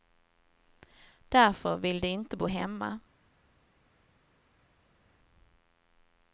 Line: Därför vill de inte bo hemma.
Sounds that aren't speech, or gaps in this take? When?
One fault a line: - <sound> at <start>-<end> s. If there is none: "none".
none